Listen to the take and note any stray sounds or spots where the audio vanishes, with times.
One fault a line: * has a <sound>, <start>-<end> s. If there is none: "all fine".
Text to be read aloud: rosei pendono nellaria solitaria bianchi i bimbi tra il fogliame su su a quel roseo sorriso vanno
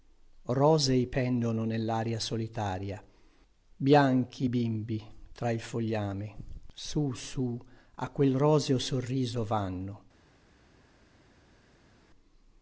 all fine